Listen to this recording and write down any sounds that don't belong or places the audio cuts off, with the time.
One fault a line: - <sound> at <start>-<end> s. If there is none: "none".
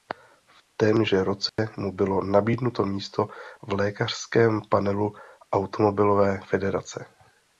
- dropout at 1.5-1.6 s